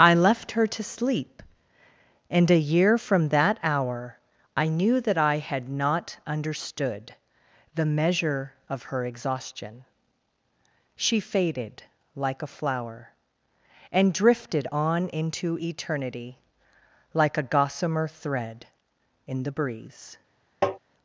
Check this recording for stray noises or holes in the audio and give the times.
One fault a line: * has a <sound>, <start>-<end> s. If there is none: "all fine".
* has a tap, 20.6-20.8 s